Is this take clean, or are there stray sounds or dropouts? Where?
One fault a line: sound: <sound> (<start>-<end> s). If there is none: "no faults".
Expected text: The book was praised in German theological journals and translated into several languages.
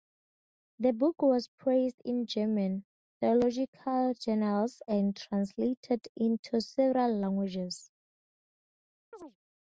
sound: chirp (9.1-9.4 s)